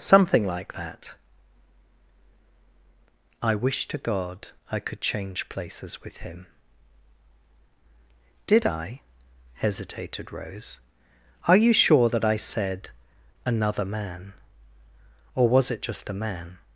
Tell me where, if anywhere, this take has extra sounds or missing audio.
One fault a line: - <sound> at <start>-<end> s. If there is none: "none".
none